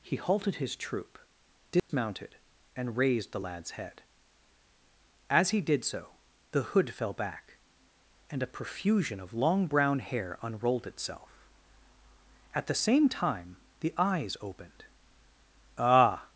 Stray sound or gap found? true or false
true